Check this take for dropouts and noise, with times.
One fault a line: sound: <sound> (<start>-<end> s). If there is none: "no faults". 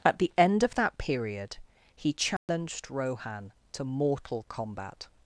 sound: dropout (2.4-2.5 s)